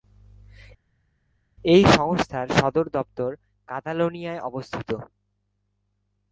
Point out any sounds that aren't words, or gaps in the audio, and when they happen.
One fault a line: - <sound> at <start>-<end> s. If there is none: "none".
none